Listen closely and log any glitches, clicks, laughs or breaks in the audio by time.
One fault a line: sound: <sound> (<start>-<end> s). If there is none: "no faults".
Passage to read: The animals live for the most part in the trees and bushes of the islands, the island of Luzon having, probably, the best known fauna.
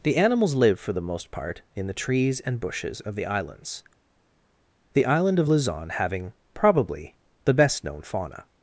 no faults